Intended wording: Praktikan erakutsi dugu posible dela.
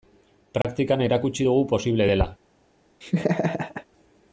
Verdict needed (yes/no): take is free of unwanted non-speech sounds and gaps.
no